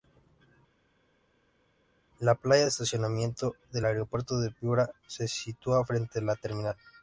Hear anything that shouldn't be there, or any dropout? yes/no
no